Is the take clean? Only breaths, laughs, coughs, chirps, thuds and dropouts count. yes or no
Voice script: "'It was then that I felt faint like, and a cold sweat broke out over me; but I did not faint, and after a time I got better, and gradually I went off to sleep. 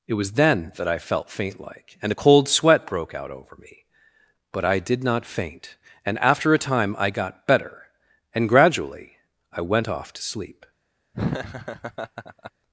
no